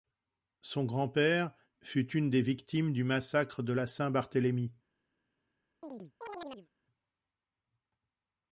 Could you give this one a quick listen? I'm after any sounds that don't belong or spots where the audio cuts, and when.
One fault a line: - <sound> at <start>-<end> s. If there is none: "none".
- chirp at 5.8-6.7 s